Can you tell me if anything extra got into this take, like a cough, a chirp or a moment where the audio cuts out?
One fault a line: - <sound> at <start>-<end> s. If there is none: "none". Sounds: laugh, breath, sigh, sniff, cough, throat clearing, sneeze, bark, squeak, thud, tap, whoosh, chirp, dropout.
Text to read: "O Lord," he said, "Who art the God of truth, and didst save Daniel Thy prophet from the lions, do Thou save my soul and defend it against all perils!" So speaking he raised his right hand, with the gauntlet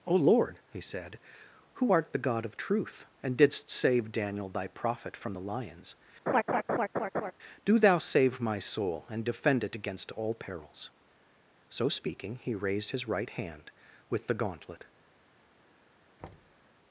- laugh at 6.3-7.3 s
- thud at 16.2-16.6 s